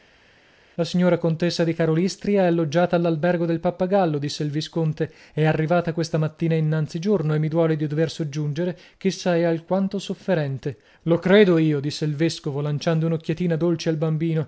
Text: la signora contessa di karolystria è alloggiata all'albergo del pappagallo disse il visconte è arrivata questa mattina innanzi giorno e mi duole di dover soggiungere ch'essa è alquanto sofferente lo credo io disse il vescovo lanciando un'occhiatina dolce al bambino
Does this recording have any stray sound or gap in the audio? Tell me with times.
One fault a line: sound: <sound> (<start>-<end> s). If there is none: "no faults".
no faults